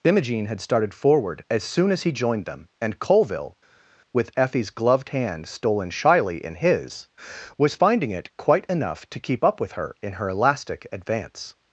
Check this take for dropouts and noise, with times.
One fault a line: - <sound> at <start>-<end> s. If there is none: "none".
none